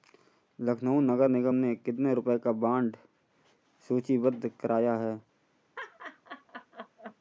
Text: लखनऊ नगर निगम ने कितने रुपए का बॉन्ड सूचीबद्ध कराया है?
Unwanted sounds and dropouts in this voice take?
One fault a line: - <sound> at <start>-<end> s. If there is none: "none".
- laugh at 5.8-7.2 s